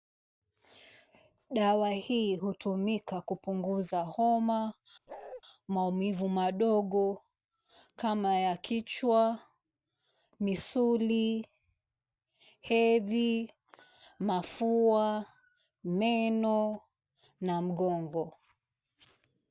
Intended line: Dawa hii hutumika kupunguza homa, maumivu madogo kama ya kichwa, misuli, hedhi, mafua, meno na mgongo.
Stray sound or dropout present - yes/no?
yes